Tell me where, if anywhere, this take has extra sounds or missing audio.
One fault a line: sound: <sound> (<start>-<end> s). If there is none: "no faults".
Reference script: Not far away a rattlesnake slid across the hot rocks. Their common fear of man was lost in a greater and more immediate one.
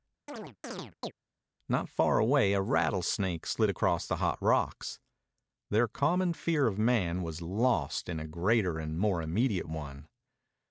sound: chirp (0.3-1.1 s)